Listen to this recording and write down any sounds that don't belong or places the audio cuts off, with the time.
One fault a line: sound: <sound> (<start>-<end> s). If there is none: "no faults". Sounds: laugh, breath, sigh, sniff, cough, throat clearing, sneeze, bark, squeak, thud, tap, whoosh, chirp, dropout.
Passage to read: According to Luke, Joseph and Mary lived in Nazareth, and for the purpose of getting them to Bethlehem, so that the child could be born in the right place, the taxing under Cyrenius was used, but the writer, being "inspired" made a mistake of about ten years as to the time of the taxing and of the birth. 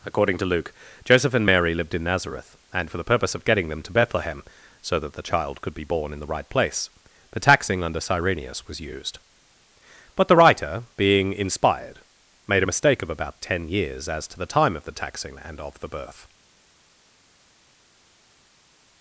no faults